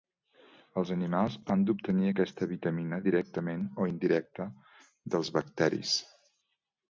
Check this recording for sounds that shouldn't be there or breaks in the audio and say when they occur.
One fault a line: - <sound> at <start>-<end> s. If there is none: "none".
none